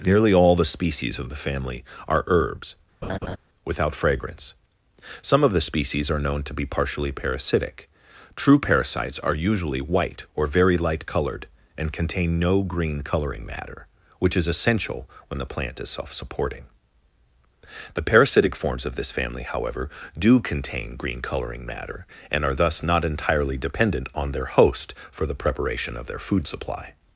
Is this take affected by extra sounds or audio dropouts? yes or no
yes